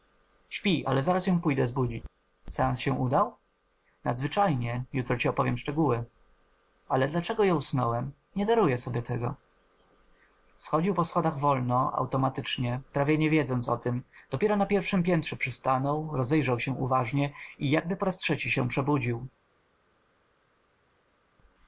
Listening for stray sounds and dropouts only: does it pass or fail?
pass